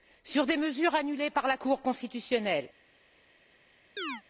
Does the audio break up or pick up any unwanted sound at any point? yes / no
yes